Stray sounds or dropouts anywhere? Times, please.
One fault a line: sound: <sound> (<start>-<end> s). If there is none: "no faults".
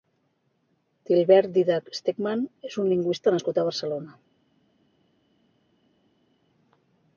no faults